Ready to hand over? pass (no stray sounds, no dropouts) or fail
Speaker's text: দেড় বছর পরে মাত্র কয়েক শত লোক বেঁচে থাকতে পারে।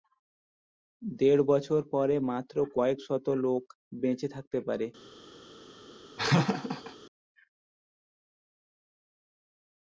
fail